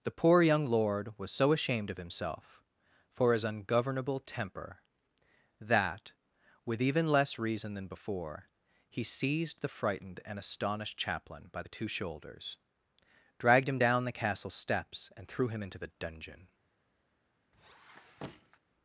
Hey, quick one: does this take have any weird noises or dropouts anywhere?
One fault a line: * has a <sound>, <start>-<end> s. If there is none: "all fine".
* has a squeak, 17.5-18.6 s